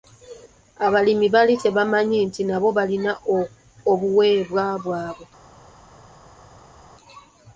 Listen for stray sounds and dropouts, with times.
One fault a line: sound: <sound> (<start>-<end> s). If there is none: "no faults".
no faults